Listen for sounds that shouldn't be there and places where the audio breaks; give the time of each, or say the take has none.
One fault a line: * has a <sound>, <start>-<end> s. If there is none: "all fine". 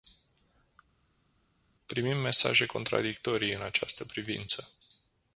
all fine